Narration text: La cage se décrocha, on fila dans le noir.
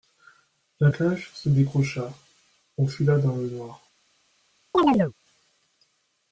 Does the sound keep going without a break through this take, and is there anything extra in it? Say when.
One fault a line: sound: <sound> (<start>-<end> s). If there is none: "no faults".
sound: chirp (4.7-5.1 s)